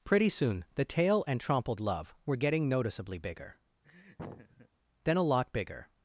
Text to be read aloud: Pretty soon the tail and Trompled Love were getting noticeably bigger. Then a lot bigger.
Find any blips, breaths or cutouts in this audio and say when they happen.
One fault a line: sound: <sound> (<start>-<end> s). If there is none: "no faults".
sound: laugh (3.8-4.7 s)